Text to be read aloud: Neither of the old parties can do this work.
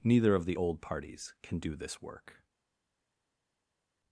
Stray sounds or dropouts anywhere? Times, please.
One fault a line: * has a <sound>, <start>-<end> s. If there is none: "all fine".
all fine